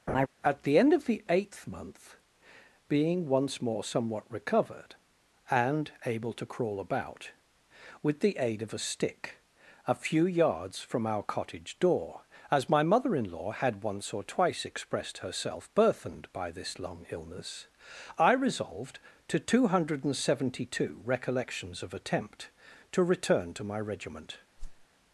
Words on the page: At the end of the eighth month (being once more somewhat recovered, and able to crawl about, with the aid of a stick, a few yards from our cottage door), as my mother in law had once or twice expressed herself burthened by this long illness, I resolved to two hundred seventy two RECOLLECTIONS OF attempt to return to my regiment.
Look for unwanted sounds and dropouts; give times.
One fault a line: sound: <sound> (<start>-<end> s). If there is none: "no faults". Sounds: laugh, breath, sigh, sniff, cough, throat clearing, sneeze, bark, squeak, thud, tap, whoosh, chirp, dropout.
sound: laugh (0.1-0.3 s)
sound: whoosh (24.6-24.9 s)